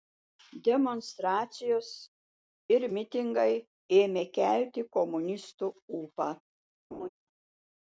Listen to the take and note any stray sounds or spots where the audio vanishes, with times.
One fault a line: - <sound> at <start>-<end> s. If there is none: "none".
- laugh at 6.9-7.1 s